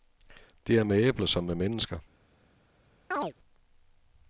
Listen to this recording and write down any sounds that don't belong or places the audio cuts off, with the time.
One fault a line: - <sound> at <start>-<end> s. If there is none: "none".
- chirp at 3.1-3.3 s